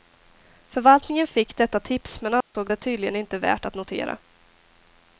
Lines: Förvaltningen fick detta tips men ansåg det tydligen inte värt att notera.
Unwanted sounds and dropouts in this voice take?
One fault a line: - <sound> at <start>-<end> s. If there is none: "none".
- dropout at 2.4-2.5 s